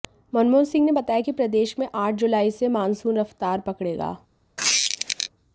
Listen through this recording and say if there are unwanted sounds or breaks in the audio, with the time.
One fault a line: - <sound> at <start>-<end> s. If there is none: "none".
- squeak at 4.6-5.3 s